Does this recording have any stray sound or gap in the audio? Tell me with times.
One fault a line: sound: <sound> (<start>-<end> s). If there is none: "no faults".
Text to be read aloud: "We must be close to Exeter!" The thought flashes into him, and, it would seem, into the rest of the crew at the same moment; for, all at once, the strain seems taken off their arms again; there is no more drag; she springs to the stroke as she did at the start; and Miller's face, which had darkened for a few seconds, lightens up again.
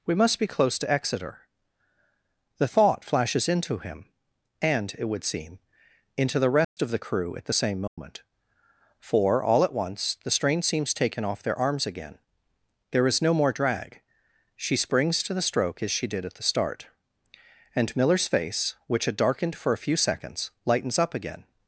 sound: dropout (6.6-6.8 s)
sound: dropout (7.9-8.0 s)